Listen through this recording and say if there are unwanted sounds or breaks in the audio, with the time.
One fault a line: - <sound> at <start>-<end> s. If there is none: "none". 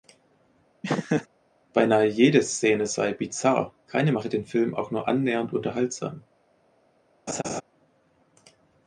- laugh at 0.8-1.3 s
- laugh at 7.3-7.6 s